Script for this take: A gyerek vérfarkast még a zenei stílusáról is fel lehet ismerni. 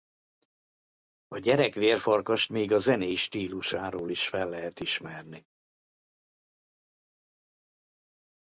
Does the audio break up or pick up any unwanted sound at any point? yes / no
no